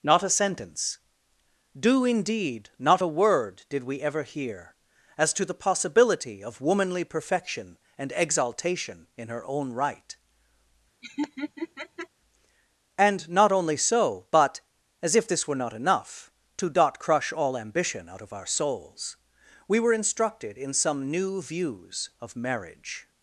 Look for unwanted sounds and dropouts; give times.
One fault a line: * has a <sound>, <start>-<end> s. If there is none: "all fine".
* has a laugh, 11.0-12.1 s